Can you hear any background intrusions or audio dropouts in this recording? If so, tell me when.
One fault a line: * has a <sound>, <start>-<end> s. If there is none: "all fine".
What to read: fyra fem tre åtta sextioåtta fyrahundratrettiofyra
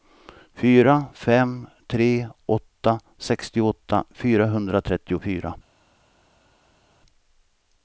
all fine